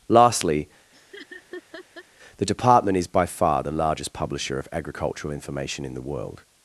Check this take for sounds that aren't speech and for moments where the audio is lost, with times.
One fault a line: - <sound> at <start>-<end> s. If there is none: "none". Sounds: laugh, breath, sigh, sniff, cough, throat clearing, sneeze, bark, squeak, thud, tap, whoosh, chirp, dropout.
- laugh at 0.9-2.0 s